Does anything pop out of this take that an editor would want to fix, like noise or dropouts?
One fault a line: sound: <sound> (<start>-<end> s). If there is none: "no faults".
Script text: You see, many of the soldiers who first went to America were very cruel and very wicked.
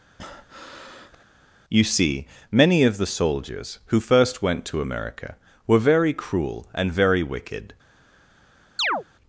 sound: breath (0.2-1.3 s)
sound: chirp (8.8-9.0 s)